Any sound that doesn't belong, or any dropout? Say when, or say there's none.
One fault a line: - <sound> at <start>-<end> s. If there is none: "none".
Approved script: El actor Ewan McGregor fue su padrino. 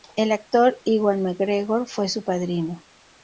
none